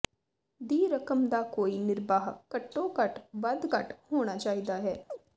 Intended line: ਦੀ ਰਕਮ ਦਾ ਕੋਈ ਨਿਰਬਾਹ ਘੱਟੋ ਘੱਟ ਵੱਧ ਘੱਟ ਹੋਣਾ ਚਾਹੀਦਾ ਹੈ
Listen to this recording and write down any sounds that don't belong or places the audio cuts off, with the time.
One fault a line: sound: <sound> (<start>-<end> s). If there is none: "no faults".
sound: chirp (5.1-5.2 s)